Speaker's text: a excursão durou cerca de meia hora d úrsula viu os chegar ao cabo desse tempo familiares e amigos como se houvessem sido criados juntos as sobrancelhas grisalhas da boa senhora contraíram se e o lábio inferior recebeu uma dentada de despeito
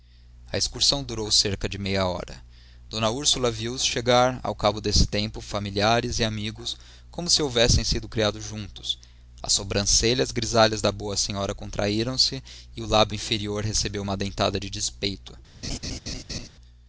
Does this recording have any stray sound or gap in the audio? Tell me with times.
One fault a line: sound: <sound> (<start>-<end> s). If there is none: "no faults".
sound: laugh (15.6-16.5 s)